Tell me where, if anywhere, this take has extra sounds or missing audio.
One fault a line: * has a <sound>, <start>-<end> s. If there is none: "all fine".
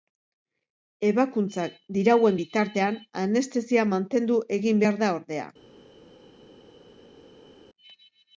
all fine